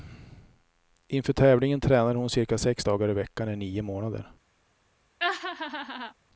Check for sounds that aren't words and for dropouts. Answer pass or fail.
fail